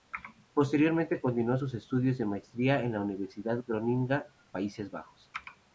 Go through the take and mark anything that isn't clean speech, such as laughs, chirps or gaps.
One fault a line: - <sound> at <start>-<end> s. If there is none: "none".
none